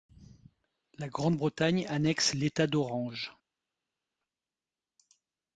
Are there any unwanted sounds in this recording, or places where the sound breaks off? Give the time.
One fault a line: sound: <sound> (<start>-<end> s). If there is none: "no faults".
no faults